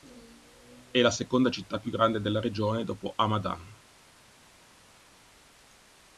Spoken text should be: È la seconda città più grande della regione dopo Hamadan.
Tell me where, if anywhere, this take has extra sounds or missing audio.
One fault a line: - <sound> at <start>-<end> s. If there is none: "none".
none